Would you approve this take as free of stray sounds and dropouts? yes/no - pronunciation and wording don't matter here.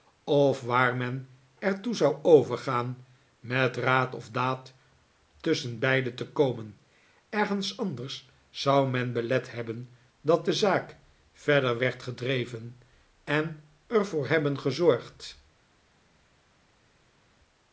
yes